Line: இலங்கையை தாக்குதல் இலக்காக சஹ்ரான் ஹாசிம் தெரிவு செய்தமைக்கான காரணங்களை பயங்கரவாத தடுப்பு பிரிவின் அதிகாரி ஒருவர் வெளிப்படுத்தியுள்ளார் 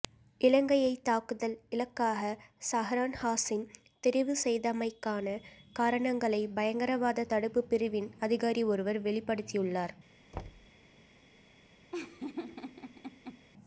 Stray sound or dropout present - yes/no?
yes